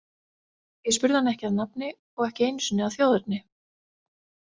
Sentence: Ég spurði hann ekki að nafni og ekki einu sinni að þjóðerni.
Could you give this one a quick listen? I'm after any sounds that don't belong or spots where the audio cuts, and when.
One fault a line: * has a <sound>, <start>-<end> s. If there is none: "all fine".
all fine